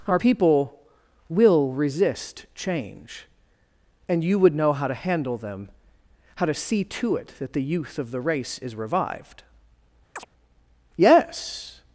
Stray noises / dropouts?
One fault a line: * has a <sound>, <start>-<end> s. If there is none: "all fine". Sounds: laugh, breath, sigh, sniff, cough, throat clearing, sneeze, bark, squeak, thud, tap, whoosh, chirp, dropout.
* has a chirp, 10.2-10.3 s